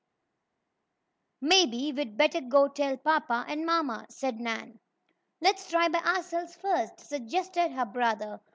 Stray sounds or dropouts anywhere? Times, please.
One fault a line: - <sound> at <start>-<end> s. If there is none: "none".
none